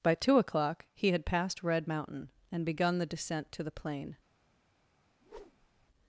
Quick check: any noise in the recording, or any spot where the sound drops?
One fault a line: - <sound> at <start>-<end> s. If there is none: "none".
- whoosh at 5.2-5.9 s